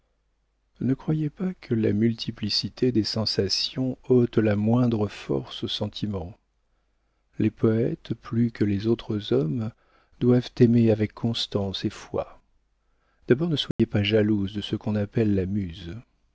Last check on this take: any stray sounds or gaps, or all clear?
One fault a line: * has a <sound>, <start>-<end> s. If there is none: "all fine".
* has a dropout, 13.7-13.8 s